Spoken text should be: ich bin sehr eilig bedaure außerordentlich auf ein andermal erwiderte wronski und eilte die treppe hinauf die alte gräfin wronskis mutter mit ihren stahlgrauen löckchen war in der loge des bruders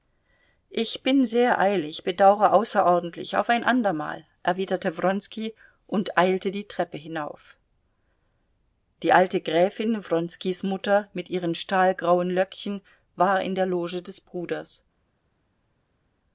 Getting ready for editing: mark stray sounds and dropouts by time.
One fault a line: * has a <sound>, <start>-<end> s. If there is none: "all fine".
all fine